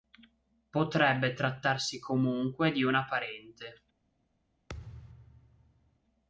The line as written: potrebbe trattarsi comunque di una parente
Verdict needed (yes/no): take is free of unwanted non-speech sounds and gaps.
no